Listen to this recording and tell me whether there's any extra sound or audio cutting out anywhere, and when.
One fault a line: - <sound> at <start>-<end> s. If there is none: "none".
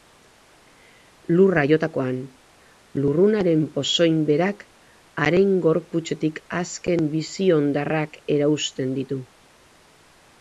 none